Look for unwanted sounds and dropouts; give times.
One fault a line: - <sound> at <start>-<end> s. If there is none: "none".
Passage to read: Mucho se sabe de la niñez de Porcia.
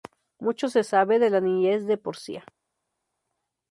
none